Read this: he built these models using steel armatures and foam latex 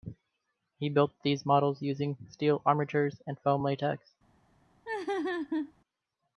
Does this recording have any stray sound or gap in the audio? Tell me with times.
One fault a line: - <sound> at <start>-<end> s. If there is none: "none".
- laugh at 4.9-5.7 s